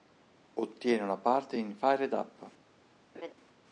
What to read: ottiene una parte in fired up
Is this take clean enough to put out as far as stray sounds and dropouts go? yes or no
no